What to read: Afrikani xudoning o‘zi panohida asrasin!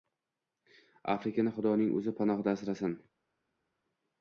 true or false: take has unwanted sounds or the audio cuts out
false